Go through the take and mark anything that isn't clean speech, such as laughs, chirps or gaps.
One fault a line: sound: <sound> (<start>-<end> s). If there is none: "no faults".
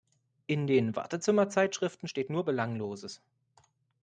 no faults